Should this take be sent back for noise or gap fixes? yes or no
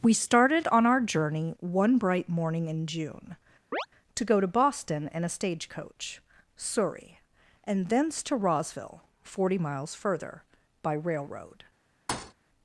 yes